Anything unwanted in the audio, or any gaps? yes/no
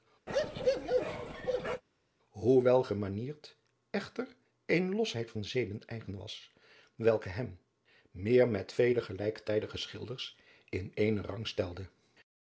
yes